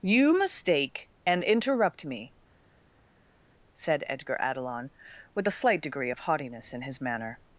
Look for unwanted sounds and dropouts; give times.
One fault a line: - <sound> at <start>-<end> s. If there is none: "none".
none